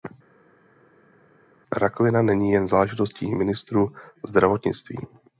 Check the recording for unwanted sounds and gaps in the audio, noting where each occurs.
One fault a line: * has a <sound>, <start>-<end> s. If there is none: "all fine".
all fine